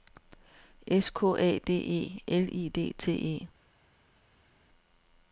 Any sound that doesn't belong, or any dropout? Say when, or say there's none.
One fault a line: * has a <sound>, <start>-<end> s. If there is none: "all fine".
all fine